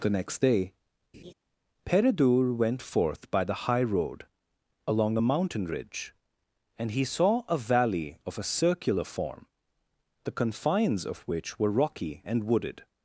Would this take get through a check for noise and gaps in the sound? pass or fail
fail